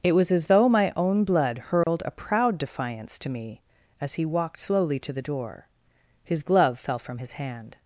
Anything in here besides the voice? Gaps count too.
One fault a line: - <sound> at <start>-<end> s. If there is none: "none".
- dropout at 1.8-1.9 s